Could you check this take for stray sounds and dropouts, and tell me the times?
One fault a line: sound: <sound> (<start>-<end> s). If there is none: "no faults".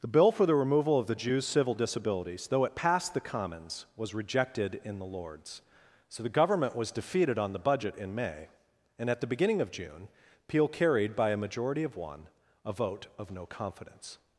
no faults